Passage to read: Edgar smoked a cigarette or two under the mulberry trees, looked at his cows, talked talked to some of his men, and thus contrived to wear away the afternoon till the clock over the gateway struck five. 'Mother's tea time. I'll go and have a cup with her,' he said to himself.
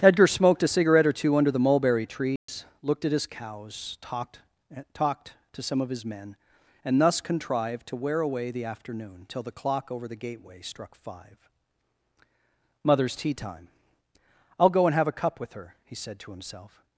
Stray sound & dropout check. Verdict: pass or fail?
fail